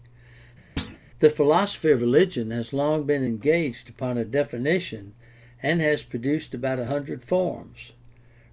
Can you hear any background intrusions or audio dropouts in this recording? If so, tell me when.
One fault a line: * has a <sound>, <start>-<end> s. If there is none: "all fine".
* has a thud, 0.8-1.0 s